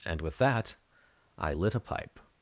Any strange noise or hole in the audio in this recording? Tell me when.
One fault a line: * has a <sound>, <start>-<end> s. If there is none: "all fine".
all fine